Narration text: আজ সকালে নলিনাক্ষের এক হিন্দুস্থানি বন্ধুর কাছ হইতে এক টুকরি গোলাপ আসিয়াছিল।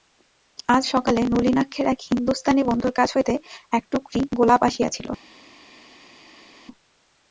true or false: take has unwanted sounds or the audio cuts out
false